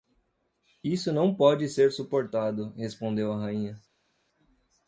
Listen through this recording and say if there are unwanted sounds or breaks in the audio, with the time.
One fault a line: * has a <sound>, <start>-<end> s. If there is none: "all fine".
all fine